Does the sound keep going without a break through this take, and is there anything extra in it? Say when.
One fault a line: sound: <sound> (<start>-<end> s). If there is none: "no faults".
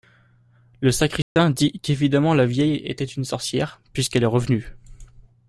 sound: dropout (1.2-1.4 s)